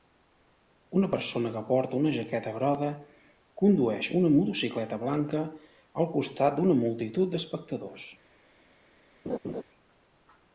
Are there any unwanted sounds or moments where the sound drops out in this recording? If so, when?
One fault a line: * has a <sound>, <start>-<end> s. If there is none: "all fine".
* has a laugh, 9.2-9.6 s